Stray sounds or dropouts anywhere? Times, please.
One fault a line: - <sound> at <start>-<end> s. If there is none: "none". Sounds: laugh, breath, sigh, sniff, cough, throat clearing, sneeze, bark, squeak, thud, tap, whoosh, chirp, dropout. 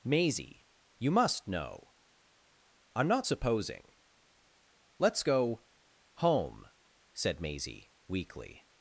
none